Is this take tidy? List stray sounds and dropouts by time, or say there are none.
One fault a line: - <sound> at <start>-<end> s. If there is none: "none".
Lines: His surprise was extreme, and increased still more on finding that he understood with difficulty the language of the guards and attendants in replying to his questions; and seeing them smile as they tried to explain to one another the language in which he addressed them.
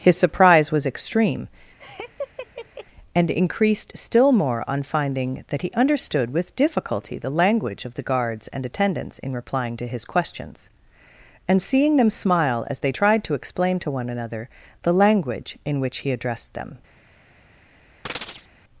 - laugh at 1.8-2.9 s
- chirp at 18.1-18.5 s